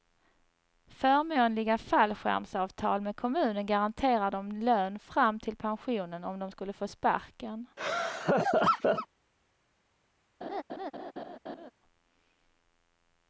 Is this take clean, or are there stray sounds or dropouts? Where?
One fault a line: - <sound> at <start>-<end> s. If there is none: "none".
- laugh at 7.8-9.1 s
- laugh at 10.4-11.7 s